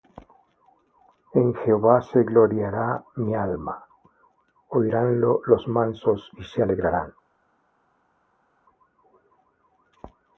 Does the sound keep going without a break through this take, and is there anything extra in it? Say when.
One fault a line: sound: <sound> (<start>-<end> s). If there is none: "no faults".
no faults